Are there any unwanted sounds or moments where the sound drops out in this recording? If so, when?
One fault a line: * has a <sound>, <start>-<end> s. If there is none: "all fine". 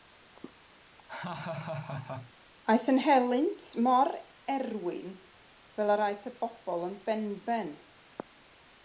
* has a laugh, 1.1-2.3 s